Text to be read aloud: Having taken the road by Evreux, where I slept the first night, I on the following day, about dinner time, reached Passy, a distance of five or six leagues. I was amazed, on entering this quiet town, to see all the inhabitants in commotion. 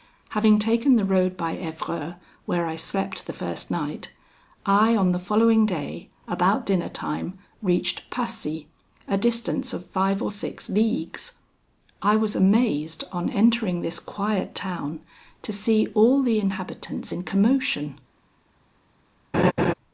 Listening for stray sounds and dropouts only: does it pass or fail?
fail